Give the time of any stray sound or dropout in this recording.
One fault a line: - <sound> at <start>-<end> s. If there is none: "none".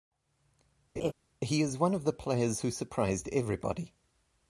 - laugh at 1.0-1.1 s